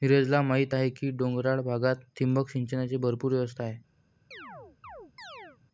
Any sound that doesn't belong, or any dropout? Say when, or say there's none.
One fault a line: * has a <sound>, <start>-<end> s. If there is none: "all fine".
* has a chirp, 4.3-5.6 s